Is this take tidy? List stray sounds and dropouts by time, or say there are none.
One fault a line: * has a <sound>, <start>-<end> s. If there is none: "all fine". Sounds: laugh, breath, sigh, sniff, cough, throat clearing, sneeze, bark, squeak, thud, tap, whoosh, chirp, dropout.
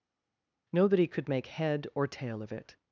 all fine